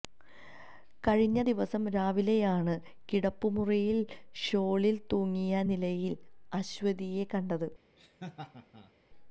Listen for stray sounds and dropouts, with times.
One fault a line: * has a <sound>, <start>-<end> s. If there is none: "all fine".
* has a laugh, 8.0-8.9 s